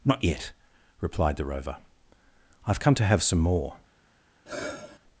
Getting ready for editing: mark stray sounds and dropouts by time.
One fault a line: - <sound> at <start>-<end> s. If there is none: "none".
- sigh at 4.5-5.0 s